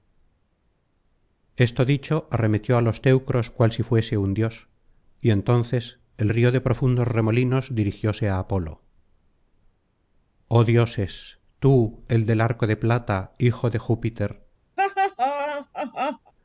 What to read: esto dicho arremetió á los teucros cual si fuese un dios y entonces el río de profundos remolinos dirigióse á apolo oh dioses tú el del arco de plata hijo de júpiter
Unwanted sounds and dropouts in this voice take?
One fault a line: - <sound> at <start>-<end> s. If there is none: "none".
- laugh at 14.8-16.3 s